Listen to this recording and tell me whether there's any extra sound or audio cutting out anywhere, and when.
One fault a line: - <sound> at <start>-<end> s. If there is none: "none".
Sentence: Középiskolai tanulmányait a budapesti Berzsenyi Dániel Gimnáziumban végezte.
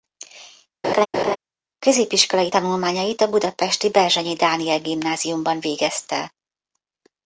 - laugh at 0.8-1.4 s